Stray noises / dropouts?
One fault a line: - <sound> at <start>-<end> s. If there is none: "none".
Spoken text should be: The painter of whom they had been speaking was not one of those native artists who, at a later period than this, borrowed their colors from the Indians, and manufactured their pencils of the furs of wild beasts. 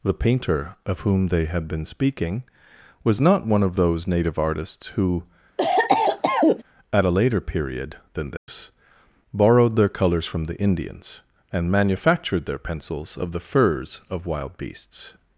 - cough at 5.6-6.6 s
- dropout at 8.4-8.5 s